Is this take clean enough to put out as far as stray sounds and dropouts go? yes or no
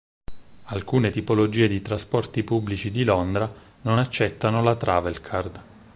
yes